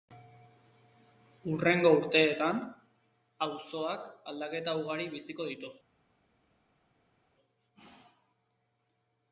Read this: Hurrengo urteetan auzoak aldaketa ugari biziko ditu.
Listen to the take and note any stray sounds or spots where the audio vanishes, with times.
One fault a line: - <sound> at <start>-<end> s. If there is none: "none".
none